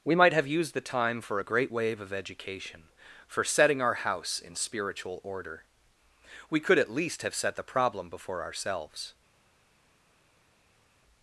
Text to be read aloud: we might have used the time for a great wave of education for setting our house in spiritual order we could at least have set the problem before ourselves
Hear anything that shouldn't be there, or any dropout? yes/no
no